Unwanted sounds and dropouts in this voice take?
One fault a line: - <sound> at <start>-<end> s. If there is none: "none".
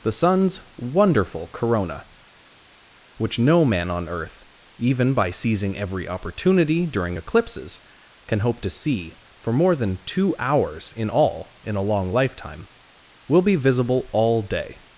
none